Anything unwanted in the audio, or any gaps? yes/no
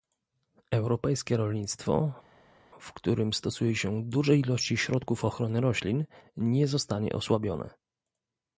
no